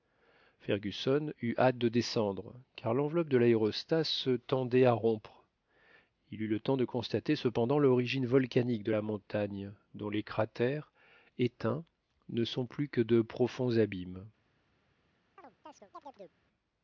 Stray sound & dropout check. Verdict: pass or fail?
fail